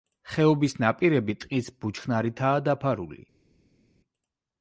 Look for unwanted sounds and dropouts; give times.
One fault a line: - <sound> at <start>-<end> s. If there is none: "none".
none